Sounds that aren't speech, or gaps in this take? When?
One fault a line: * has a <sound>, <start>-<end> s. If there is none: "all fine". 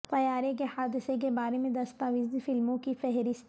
all fine